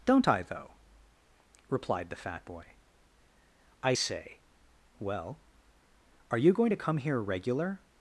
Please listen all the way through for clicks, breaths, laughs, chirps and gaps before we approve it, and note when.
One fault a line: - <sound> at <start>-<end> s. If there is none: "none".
none